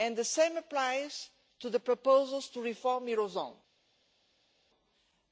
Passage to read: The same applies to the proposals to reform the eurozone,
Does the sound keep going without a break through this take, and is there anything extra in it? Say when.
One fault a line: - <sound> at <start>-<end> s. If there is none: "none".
none